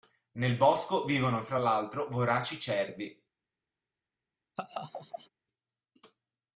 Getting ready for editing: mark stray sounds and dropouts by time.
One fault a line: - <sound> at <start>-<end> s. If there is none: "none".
- laugh at 4.6-5.3 s